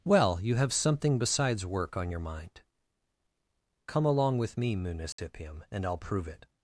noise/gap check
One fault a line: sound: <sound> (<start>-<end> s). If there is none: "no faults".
sound: dropout (5.1-5.2 s)